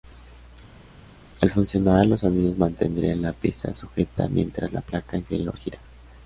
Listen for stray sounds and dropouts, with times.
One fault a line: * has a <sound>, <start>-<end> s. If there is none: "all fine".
all fine